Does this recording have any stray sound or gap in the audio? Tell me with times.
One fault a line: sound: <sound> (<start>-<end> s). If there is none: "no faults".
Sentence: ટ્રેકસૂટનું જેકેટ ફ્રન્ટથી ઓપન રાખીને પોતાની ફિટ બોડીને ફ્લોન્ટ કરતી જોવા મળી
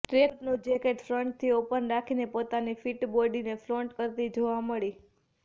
no faults